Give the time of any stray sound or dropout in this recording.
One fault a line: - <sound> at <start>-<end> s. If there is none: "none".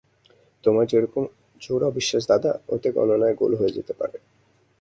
none